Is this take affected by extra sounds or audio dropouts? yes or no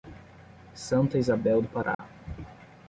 yes